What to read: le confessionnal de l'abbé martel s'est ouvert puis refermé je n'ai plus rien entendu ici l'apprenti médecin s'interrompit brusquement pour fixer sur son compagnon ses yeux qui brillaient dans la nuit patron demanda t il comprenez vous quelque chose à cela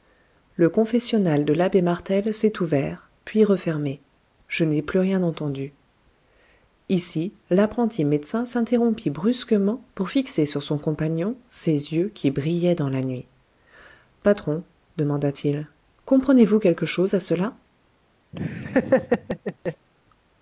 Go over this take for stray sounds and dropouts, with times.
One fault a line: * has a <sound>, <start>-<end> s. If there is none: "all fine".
* has a laugh, 18.3-19.9 s